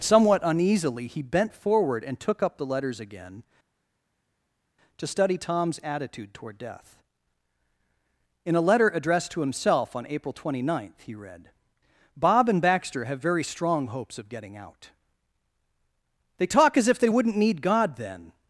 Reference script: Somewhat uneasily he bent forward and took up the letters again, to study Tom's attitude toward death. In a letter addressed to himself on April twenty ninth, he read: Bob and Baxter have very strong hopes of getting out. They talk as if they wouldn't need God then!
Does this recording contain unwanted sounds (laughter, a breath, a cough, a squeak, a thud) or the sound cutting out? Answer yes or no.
no